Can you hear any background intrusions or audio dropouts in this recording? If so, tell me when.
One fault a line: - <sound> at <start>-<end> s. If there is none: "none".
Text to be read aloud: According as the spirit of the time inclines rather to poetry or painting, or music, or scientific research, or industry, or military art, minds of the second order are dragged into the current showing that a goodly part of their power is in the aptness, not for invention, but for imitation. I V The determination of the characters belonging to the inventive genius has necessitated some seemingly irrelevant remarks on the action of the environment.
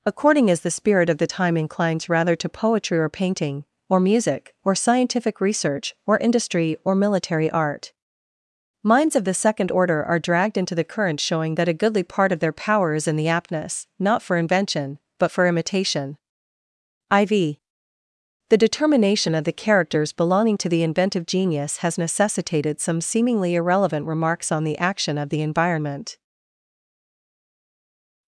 none